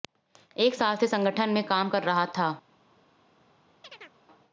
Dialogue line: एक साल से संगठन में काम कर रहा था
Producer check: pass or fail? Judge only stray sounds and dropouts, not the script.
fail